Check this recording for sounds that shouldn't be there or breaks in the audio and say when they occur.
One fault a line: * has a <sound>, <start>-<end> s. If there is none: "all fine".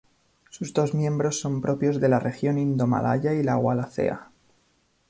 all fine